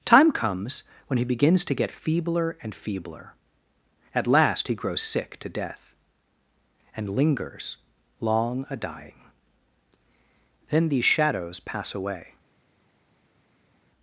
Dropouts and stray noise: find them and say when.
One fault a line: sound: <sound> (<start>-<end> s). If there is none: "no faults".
no faults